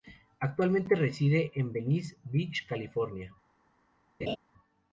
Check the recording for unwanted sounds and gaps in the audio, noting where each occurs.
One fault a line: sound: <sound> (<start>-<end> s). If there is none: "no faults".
sound: laugh (4.2-4.4 s)